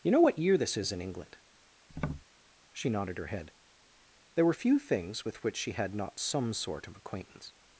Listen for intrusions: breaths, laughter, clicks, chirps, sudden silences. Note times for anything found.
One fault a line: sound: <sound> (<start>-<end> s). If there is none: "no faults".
sound: tap (1.9-2.2 s)